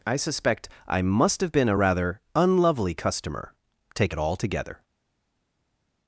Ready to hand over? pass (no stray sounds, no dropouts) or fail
pass